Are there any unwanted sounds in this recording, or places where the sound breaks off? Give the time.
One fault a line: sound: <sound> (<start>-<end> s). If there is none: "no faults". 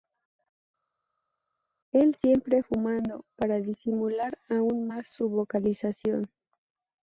no faults